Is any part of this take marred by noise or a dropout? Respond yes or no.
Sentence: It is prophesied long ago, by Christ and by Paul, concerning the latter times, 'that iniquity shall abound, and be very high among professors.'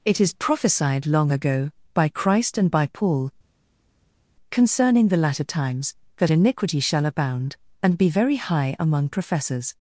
no